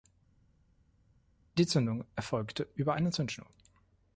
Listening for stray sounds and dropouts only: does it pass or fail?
pass